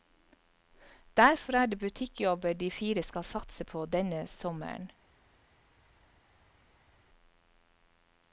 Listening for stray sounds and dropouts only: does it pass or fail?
pass